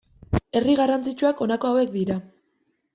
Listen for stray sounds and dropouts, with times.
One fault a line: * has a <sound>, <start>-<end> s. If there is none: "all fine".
all fine